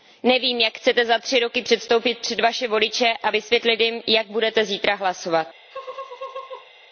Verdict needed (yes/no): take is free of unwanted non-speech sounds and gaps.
no